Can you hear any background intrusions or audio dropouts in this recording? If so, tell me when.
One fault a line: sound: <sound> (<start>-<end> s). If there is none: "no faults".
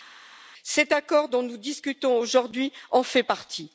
no faults